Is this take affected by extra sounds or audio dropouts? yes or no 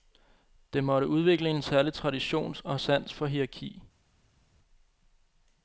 no